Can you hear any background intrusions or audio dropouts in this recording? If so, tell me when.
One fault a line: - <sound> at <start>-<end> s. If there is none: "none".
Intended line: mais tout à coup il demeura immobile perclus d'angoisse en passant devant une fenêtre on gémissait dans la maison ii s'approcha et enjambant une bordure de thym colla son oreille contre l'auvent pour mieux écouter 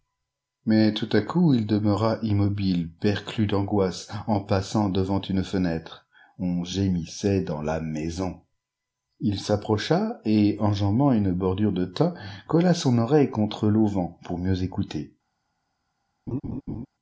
- laugh at 16.3-16.9 s